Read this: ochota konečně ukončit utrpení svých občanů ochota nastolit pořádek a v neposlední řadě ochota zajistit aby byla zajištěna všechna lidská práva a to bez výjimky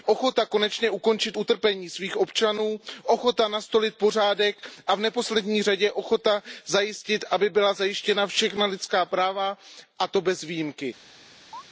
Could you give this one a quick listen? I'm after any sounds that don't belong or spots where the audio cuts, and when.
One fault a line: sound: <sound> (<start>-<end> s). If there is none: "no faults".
sound: chirp (11.5-11.6 s)